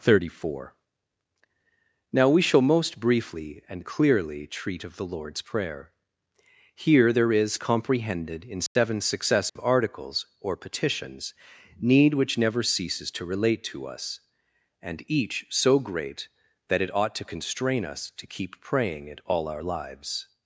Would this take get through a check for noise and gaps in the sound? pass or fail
fail